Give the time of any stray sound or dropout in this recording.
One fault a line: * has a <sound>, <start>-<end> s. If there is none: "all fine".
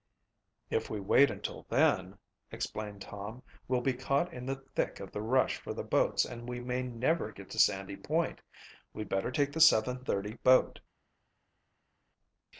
all fine